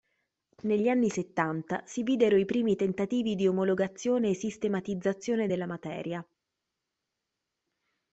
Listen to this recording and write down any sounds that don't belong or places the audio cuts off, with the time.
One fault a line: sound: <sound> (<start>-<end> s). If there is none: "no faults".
no faults